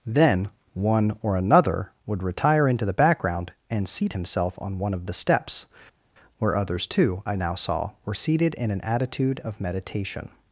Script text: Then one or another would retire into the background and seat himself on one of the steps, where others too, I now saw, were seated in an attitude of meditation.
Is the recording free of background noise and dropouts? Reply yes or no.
yes